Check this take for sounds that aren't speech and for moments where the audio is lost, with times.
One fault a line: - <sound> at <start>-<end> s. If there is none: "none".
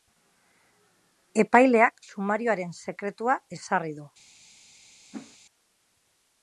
- whoosh at 5.1-5.4 s